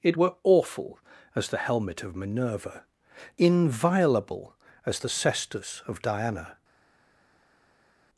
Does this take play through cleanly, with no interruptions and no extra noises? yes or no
yes